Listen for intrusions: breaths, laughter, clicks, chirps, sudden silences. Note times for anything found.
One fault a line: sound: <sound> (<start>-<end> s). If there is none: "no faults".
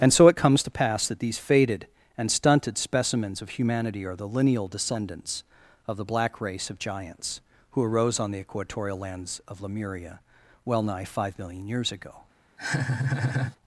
sound: laugh (12.6-13.6 s)